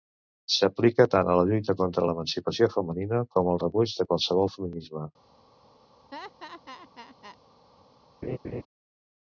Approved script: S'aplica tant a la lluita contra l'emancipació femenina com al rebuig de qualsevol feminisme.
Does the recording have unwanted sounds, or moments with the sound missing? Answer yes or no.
yes